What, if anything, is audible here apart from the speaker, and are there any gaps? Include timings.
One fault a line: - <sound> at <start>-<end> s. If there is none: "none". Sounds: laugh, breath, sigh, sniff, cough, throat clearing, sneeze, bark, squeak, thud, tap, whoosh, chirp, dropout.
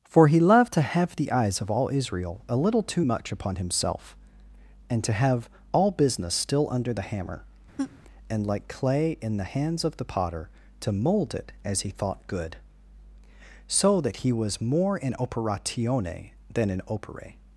- laugh at 7.8-8.0 s